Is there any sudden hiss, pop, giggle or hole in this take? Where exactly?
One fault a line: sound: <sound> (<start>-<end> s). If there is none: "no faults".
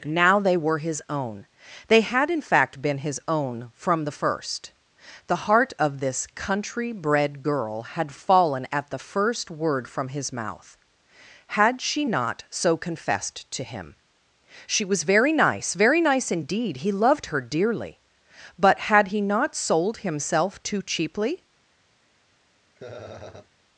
sound: laugh (22.8-23.5 s)